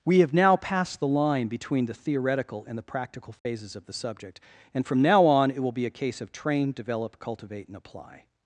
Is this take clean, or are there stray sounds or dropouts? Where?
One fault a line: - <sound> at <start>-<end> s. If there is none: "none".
- dropout at 3.4-3.5 s